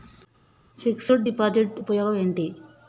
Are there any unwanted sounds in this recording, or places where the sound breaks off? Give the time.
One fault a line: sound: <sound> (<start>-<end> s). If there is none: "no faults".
no faults